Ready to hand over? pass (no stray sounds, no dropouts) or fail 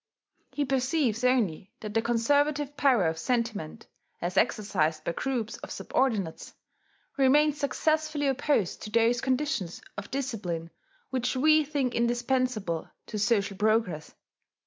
pass